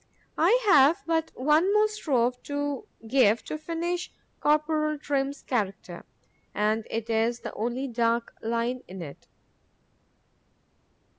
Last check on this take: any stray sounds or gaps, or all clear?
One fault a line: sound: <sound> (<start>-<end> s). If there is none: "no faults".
no faults